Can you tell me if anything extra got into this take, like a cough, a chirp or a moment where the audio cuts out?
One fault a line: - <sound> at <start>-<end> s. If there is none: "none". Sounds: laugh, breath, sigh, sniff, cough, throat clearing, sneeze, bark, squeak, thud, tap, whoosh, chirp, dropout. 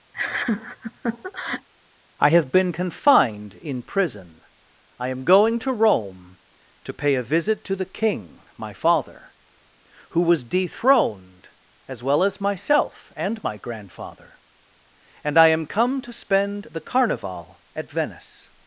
- laugh at 0.1-1.7 s